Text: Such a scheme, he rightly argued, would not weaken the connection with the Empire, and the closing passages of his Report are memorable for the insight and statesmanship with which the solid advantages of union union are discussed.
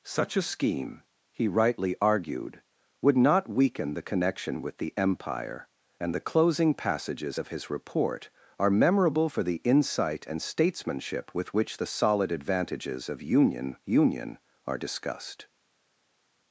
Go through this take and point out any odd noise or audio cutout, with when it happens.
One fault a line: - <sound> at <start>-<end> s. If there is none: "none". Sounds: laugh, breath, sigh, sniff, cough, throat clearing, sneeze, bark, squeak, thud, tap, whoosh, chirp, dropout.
none